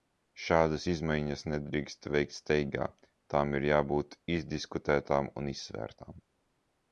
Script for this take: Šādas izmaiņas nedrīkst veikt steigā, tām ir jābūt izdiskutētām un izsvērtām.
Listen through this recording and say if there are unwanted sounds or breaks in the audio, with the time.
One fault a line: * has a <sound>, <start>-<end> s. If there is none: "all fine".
all fine